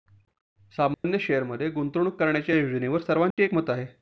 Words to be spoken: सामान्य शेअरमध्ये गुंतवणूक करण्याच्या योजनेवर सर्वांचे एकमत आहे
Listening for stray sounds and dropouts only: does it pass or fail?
fail